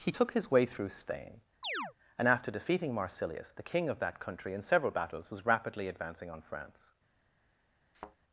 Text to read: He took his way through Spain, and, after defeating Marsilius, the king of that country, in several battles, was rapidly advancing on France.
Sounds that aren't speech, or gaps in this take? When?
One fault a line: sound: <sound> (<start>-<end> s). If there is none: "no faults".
sound: chirp (1.6-1.9 s)
sound: thud (7.9-8.2 s)